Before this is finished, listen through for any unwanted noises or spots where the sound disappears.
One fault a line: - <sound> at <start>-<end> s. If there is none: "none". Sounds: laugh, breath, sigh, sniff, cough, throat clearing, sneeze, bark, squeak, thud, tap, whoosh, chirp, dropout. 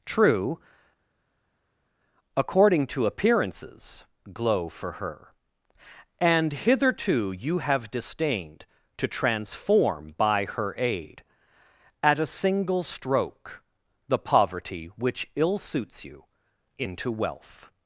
none